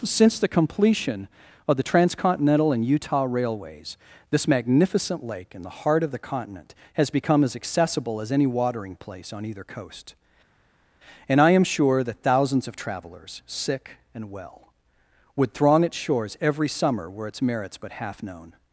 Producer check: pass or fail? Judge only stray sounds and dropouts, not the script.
pass